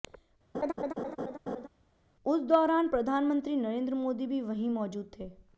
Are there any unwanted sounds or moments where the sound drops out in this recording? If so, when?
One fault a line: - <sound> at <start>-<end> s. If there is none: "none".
- laugh at 0.5-1.7 s